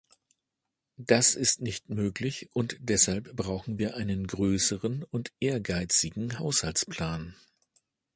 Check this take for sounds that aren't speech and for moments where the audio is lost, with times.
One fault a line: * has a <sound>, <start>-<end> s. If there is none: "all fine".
all fine